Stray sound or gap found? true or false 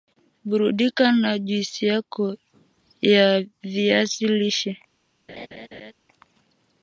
true